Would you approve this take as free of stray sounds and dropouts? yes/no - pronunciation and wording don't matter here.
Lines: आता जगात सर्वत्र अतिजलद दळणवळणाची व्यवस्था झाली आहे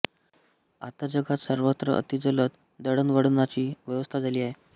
yes